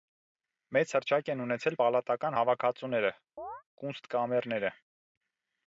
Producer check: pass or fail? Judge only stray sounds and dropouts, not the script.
fail